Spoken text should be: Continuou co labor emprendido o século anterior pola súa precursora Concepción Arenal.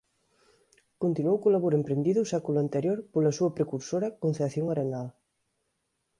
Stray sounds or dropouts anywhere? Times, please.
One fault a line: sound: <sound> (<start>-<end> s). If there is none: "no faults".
no faults